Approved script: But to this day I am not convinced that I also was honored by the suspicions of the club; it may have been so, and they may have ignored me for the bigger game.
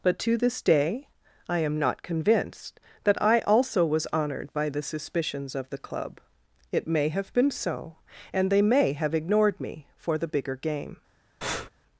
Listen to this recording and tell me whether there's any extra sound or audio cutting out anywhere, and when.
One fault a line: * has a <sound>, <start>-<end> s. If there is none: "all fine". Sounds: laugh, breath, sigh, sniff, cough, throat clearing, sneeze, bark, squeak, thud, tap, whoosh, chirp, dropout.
* has a breath, 11.4-11.7 s